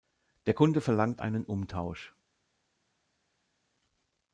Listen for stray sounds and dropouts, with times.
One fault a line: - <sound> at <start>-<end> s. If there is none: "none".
none